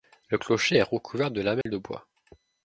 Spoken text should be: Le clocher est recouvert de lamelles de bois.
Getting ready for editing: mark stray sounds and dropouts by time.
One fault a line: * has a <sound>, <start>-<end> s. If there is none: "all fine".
* has a dropout, 1.6-1.7 s